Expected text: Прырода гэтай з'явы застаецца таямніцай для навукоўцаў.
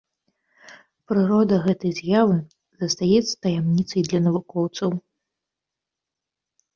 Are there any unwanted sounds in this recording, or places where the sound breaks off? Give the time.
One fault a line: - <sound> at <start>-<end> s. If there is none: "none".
none